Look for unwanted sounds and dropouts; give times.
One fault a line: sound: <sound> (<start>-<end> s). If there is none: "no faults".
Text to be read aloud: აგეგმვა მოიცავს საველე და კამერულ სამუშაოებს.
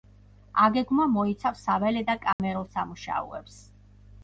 sound: dropout (2.3-2.4 s)